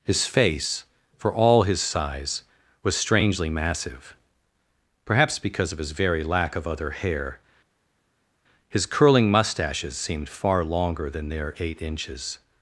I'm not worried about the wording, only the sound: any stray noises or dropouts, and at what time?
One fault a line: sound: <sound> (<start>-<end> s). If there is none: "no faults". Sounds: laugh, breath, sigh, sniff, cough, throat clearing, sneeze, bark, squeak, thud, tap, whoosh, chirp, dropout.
no faults